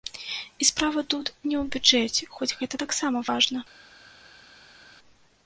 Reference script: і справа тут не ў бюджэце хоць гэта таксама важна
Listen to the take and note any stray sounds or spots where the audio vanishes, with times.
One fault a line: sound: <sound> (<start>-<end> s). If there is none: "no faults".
no faults